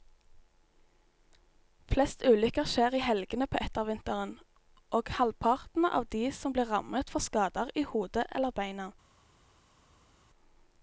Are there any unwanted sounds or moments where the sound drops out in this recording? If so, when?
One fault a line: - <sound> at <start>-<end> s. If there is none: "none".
none